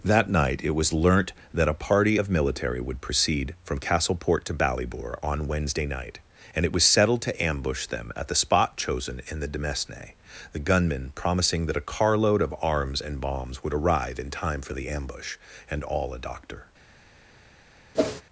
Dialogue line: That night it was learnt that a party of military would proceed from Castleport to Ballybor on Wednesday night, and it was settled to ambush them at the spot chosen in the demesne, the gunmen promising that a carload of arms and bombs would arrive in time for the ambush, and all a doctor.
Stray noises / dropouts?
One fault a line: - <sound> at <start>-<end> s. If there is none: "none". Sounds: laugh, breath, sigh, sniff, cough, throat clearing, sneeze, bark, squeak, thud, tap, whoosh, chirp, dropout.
- whoosh at 17.9-18.2 s